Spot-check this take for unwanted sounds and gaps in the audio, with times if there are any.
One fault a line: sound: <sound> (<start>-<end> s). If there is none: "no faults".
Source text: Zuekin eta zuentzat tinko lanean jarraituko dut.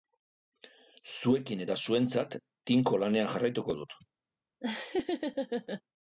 sound: laugh (4.6-5.8 s)